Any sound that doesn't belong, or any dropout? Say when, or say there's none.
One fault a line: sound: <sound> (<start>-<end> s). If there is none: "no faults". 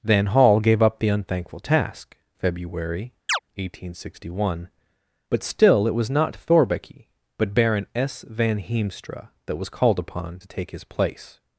sound: chirp (3.3-3.4 s)